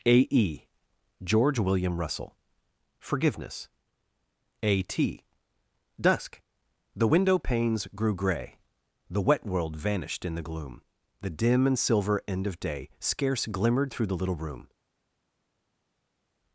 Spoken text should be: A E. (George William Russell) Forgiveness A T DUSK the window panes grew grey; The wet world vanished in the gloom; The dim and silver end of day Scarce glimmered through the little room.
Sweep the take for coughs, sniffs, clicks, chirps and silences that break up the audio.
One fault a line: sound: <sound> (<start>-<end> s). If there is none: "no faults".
no faults